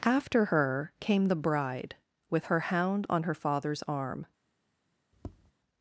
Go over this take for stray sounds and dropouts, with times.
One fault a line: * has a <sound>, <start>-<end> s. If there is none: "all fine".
* has a tap, 5.1-5.5 s